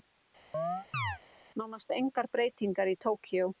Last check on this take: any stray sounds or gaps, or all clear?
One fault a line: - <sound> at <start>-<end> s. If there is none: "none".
- chirp at 0.5-1.2 s